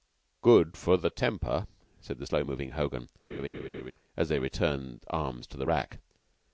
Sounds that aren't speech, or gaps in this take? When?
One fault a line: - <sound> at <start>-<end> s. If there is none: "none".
- laugh at 3.3-3.9 s